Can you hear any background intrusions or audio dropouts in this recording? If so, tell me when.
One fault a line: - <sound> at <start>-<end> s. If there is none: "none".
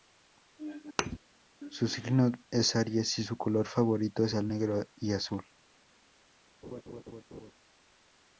- thud at 1.0-1.2 s
- laugh at 6.6-7.5 s